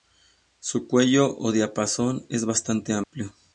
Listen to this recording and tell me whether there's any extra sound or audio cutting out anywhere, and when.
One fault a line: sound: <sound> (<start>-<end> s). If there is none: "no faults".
sound: dropout (3.0-3.1 s)